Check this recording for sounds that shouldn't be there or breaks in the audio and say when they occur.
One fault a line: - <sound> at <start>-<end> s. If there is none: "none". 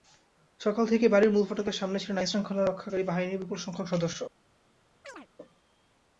- chirp at 5.0-5.3 s